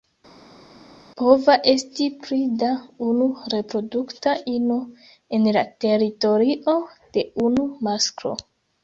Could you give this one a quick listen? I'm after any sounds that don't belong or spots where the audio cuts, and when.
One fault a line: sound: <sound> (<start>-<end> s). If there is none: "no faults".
no faults